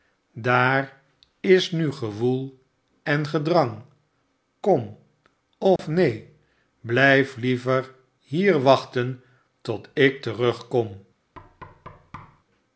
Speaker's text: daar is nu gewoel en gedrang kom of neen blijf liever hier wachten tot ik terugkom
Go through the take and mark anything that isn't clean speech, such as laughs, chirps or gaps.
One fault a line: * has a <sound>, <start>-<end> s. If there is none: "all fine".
* has a dropout, 5.8-5.8 s
* has a thud, 11.3-12.4 s